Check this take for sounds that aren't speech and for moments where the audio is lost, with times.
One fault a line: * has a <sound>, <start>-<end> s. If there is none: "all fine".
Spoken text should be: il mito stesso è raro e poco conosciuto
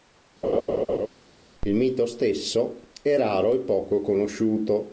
* has a laugh, 0.4-1.1 s